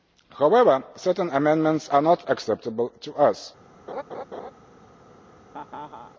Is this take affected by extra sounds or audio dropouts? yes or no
yes